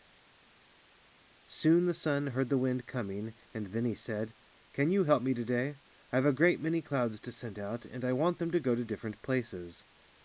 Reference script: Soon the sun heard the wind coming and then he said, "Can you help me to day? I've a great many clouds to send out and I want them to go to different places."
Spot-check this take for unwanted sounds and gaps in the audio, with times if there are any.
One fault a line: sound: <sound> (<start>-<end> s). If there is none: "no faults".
no faults